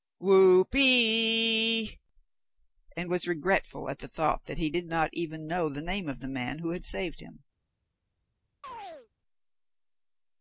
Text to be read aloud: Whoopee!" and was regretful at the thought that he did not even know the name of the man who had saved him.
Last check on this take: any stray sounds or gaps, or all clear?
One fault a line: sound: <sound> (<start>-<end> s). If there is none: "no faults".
sound: chirp (8.6-9.1 s)